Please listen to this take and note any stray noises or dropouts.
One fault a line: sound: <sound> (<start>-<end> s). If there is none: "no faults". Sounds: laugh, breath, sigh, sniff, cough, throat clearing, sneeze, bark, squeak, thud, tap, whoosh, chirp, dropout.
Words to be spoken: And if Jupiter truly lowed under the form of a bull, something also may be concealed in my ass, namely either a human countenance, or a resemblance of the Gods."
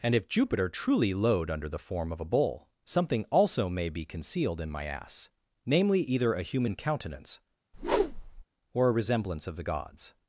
sound: whoosh (7.7-8.4 s)